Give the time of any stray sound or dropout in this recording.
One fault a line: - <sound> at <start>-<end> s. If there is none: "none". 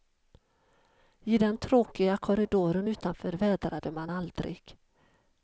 none